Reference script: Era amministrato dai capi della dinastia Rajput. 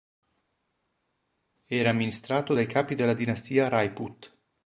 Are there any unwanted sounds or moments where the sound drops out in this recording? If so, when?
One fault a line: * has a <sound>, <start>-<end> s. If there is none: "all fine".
all fine